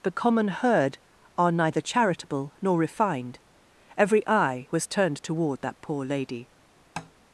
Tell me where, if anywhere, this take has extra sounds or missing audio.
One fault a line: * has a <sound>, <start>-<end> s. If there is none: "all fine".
* has a tap, 7.0-7.1 s